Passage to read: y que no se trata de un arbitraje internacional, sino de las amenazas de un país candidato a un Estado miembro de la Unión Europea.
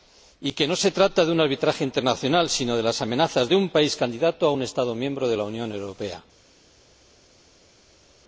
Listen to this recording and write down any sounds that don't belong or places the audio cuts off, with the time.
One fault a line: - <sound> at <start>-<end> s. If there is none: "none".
none